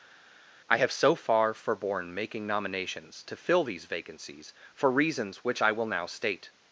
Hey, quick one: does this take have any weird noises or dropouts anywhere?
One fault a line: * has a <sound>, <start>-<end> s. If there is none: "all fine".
all fine